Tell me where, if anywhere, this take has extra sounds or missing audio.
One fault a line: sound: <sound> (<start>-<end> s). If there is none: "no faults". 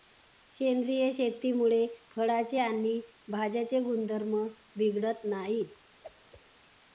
sound: whoosh (6.0-6.4 s)